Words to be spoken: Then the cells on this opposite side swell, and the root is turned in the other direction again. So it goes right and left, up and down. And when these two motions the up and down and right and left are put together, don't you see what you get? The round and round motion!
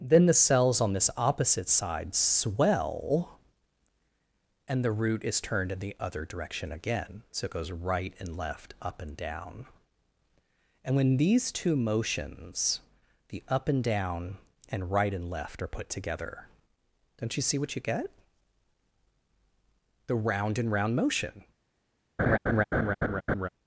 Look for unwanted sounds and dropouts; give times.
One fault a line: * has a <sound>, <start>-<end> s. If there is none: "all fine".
* has a laugh, 22.2-23.5 s